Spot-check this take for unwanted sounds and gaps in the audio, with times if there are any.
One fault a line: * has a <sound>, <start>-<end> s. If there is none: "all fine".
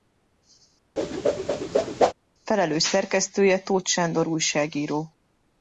* has a whoosh, 1.0-2.1 s